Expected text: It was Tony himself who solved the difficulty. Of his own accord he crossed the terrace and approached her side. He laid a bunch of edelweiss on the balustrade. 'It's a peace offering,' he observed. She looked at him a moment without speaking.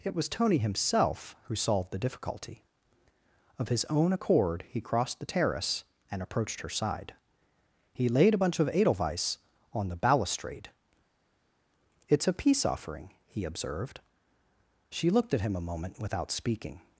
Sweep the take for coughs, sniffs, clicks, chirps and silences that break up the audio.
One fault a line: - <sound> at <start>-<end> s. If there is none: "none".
none